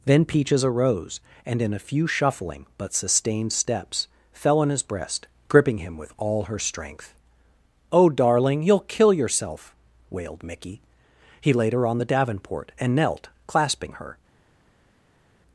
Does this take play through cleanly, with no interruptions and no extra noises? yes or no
yes